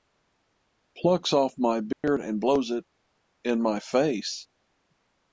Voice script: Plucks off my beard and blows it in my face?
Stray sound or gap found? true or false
true